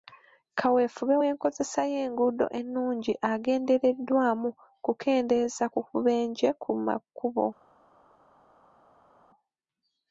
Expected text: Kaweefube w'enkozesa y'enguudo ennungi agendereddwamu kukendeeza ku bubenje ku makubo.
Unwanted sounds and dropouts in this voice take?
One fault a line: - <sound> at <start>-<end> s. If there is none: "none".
none